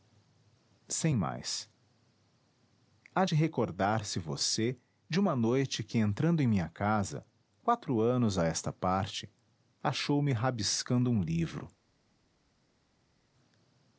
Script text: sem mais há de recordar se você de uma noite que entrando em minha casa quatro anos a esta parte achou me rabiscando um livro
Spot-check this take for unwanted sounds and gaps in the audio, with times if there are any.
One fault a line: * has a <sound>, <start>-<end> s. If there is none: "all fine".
all fine